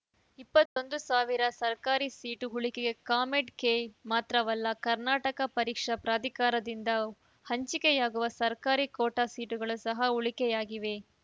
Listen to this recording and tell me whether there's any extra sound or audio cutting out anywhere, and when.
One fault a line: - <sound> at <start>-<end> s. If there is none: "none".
- dropout at 0.7-0.8 s